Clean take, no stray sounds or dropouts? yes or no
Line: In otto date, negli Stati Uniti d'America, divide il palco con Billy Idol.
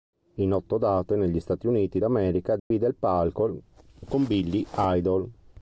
no